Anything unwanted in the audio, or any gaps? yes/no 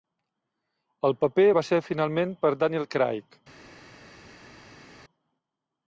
no